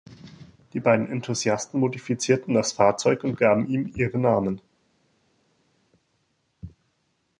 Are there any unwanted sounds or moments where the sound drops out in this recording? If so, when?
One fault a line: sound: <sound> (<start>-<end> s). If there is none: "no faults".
no faults